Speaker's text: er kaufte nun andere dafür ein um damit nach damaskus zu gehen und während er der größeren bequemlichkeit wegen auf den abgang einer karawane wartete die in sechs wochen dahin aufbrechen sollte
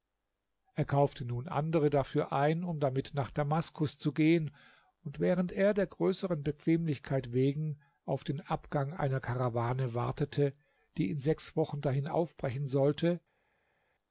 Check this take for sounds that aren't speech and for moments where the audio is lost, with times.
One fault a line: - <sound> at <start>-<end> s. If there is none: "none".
none